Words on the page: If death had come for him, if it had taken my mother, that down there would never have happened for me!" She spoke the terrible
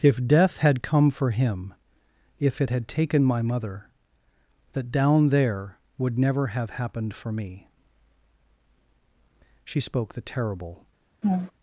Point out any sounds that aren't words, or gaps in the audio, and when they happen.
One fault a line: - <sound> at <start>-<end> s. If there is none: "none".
- laugh at 11.2-11.5 s